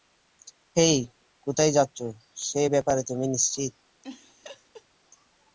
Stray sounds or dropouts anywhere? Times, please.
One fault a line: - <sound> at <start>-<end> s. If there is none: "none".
- laugh at 4.0-4.9 s